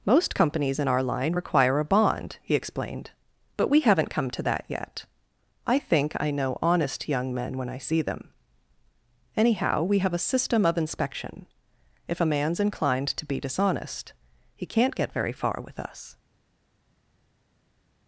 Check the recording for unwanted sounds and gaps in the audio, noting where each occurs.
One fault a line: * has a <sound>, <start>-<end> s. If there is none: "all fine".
all fine